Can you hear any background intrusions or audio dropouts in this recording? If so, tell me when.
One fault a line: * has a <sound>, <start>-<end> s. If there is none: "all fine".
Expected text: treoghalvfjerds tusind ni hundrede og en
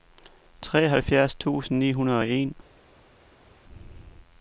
all fine